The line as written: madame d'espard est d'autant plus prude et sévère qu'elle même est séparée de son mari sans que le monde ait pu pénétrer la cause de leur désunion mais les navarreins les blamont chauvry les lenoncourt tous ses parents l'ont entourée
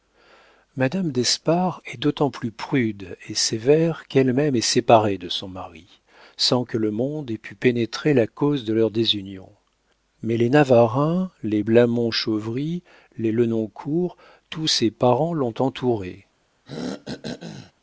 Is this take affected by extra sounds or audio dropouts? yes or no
yes